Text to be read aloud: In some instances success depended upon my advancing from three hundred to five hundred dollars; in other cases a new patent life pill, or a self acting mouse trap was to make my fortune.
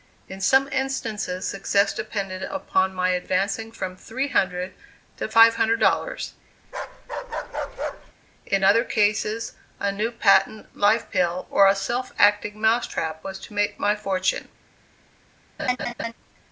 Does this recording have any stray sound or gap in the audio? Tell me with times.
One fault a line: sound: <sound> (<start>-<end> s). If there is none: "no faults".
sound: bark (6.6-8.1 s)
sound: laugh (15.6-16.1 s)